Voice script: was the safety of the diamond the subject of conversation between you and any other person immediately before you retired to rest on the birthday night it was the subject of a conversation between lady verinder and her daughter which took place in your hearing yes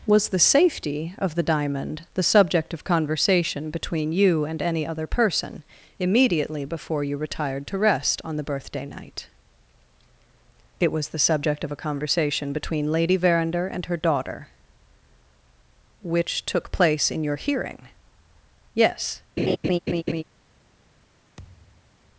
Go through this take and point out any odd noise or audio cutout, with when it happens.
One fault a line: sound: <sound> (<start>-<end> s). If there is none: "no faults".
sound: laugh (19.4-20.2 s)
sound: thud (21.4-22.0 s)